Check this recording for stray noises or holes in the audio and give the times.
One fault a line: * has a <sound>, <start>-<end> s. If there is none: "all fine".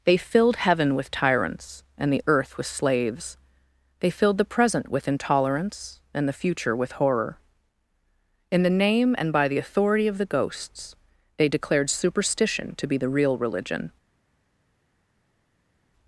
all fine